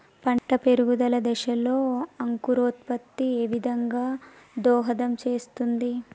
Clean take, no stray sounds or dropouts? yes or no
no